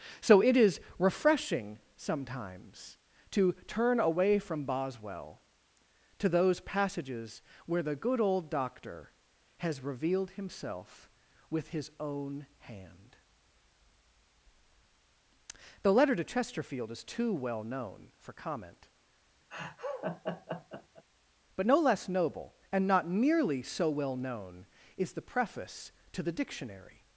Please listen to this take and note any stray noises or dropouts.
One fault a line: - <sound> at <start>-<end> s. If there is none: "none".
- laugh at 19.5-21.0 s